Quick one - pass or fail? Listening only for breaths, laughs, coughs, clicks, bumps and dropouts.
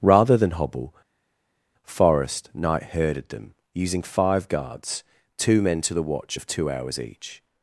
pass